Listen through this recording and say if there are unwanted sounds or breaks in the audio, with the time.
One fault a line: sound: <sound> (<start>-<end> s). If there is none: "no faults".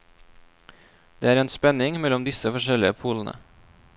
no faults